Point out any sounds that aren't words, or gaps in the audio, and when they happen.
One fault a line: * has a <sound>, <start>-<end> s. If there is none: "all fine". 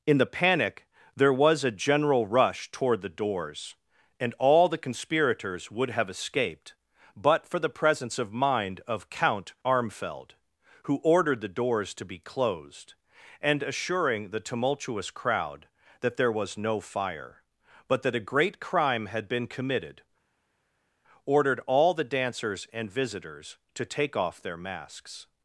all fine